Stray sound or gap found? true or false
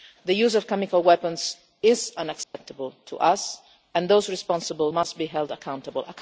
true